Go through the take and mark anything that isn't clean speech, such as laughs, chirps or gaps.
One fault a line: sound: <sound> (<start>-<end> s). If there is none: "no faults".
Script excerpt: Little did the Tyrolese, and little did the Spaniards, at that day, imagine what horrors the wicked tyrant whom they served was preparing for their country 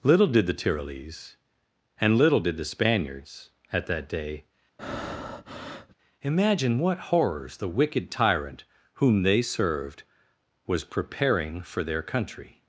sound: breath (4.8-5.9 s)